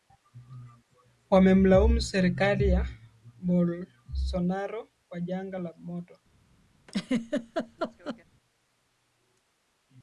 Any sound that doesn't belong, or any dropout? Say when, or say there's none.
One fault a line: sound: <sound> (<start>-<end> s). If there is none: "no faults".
sound: laugh (6.9-8.2 s)